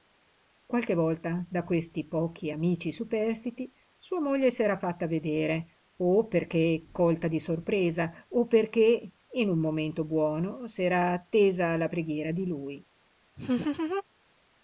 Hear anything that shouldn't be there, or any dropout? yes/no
yes